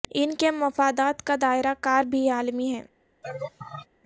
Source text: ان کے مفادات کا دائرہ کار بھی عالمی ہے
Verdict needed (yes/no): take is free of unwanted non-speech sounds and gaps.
no